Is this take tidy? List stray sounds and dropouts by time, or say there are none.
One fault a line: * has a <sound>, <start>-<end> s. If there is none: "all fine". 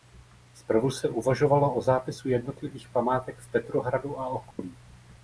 * has a dropout, 4.5-4.6 s